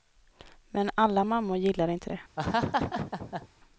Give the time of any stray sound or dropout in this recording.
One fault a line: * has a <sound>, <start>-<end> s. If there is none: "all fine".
* has a laugh, 2.4-3.5 s